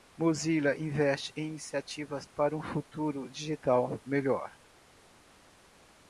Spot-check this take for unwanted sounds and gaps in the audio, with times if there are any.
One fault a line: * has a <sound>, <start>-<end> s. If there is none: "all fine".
all fine